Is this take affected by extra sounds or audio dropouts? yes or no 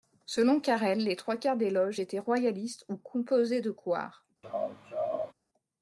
yes